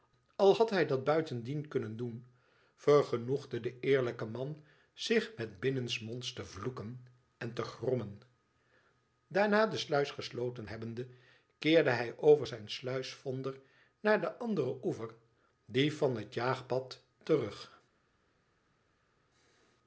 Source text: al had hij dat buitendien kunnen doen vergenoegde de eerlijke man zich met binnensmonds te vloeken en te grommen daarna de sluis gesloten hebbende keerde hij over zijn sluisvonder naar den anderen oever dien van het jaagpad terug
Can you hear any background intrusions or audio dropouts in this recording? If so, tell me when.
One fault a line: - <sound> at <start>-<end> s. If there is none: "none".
none